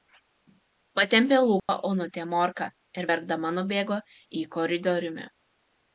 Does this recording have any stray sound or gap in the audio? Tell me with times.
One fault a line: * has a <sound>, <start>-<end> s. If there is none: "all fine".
* has a dropout, 1.6-1.7 s